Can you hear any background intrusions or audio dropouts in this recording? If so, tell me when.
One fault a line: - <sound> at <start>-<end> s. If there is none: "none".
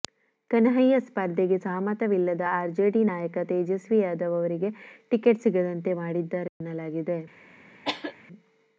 - dropout at 6.5-6.6 s
- cough at 7.9-8.1 s